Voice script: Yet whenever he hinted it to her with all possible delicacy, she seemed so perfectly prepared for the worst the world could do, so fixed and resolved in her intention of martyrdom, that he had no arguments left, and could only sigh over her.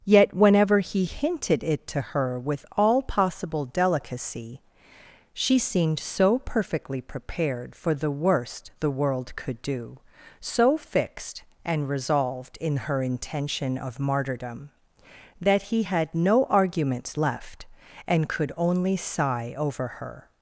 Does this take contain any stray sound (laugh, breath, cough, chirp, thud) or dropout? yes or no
no